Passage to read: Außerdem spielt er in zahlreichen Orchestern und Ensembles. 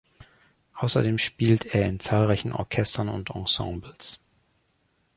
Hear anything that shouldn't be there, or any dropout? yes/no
no